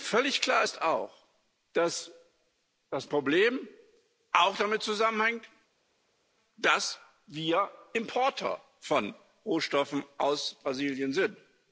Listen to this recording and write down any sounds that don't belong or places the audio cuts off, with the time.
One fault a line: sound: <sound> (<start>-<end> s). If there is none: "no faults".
no faults